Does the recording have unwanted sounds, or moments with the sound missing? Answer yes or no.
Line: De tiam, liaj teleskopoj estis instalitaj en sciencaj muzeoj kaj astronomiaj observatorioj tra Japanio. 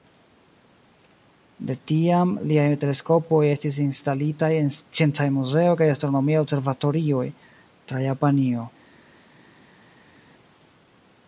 no